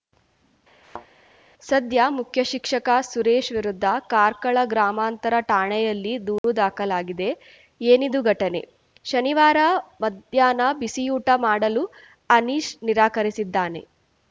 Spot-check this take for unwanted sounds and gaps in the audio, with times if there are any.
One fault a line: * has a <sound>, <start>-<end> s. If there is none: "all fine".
* has a thud, 0.8-1.1 s
* has a dropout, 6.4-6.4 s